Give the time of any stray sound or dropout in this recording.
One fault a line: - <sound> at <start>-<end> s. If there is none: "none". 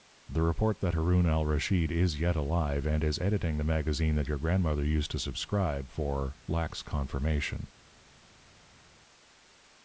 none